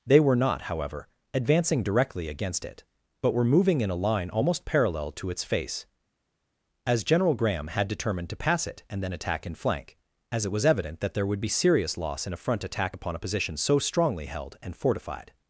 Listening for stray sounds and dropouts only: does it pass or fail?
pass